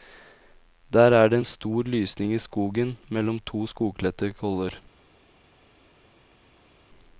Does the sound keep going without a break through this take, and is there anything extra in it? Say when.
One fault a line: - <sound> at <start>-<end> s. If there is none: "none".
none